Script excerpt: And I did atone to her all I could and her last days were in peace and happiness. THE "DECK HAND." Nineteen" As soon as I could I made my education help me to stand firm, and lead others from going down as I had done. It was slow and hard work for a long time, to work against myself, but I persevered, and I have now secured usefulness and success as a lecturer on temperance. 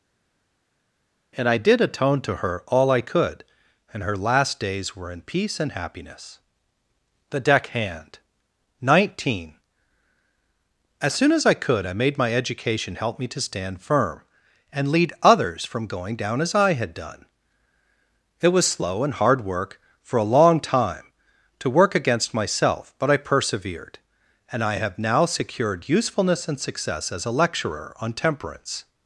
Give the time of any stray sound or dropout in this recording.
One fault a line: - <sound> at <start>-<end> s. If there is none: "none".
none